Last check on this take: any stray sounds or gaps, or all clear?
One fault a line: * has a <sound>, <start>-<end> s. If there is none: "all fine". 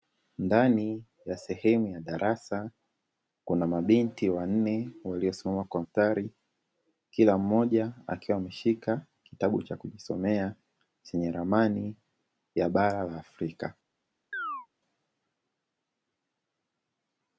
* has a chirp, 14.3-14.7 s